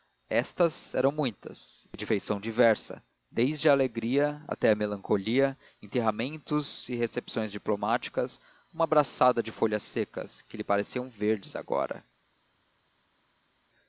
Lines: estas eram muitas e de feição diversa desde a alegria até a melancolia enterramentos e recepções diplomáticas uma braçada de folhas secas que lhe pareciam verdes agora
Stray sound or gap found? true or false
false